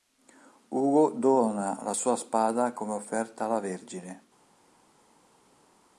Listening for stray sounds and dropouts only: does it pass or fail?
pass